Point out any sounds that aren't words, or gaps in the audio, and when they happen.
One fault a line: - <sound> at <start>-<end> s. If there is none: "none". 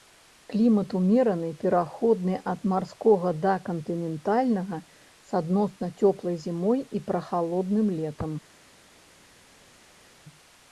none